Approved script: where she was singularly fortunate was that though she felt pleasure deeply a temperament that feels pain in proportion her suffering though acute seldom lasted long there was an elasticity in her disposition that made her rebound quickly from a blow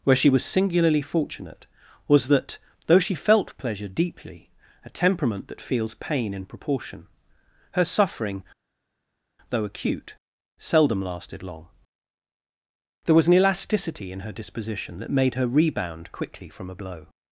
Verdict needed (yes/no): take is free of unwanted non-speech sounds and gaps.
yes